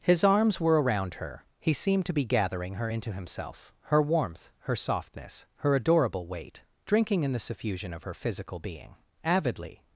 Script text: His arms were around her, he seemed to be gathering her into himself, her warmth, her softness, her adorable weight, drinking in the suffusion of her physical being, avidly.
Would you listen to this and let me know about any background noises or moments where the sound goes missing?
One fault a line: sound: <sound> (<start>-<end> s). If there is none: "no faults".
no faults